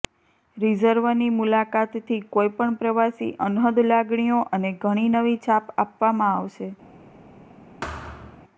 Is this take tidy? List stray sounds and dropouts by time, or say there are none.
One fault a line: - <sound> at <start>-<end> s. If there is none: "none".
- thud at 7.8-8.4 s